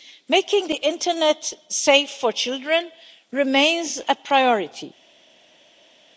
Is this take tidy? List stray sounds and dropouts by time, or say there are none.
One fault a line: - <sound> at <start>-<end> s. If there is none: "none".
none